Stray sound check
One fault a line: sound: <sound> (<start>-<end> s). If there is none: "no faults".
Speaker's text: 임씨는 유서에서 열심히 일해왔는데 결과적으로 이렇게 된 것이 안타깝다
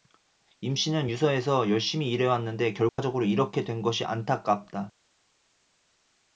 sound: dropout (2.9-3.0 s)